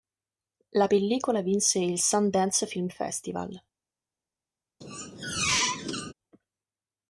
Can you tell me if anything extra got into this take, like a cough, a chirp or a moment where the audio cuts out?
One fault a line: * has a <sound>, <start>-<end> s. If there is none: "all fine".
* has a squeak, 4.8-6.1 s